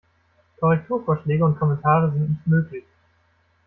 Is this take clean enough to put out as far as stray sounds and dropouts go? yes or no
yes